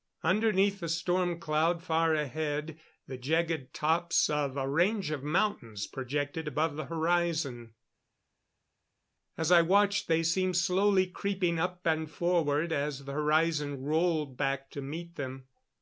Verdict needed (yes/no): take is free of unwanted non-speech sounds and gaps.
yes